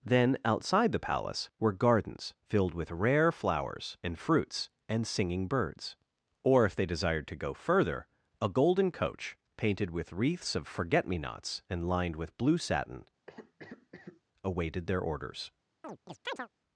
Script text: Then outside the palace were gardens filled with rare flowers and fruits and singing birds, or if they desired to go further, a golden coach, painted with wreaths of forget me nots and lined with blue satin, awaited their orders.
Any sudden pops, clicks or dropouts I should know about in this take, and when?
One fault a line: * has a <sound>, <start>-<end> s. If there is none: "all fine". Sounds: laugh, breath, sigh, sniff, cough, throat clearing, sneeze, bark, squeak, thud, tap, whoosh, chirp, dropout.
* has a cough, 13.3-14.2 s
* has a chirp, 15.8-16.5 s